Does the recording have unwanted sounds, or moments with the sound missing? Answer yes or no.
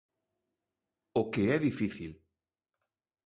no